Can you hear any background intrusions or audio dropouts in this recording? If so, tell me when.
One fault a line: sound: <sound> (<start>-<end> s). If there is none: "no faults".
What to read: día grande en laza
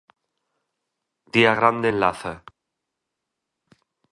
no faults